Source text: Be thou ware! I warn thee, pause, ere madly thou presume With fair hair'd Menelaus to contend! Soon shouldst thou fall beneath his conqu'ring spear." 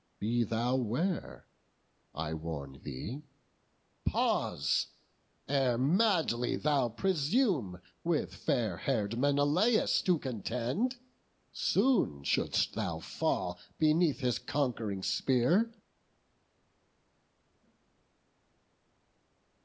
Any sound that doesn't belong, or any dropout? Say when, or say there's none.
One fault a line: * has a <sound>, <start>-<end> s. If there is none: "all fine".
all fine